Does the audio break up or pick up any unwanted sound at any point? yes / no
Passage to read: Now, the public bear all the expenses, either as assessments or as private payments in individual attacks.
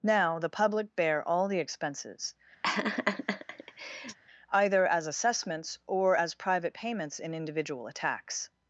yes